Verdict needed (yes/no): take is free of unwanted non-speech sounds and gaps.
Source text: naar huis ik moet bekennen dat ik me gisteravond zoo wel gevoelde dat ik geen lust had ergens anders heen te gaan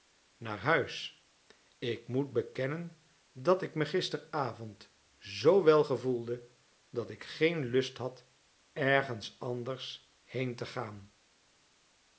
yes